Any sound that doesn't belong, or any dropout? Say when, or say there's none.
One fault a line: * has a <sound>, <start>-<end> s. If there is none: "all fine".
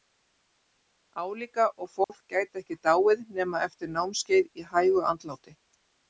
* has a dropout, 2.0-2.1 s